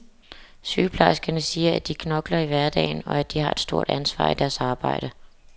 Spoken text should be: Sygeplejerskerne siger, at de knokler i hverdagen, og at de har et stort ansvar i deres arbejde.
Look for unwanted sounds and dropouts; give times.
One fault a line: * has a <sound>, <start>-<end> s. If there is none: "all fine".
all fine